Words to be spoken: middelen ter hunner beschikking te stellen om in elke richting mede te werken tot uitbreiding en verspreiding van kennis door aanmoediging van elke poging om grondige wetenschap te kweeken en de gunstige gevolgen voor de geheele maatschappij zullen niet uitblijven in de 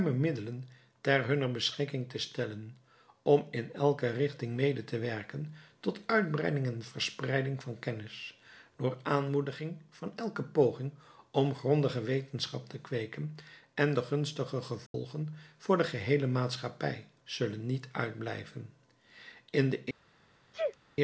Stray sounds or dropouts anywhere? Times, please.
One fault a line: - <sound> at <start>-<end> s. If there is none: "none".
- dropout at 14.9-14.9 s
- sneeze at 20.5-20.8 s